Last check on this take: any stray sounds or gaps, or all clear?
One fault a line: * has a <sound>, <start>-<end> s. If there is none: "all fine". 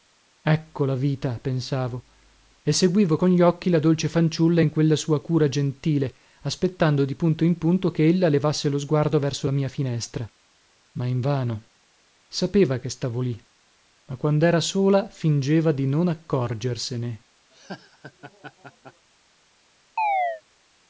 * has a laugh, 17.5-19.1 s
* has a chirp, 20.0-20.4 s